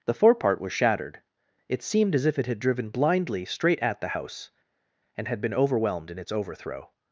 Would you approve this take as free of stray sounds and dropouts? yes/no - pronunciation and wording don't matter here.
yes